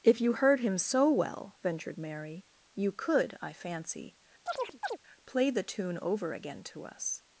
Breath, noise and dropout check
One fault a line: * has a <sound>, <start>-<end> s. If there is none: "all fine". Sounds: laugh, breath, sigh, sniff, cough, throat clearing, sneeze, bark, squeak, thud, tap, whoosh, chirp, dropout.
* has a chirp, 4.5-5.0 s